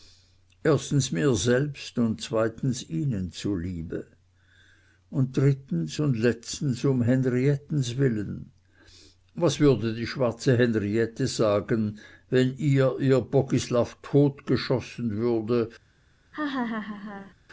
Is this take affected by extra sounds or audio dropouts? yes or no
yes